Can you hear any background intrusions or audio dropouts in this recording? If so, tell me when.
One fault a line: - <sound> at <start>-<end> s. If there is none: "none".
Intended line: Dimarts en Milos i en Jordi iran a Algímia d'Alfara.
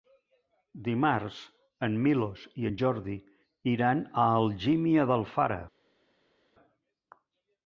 none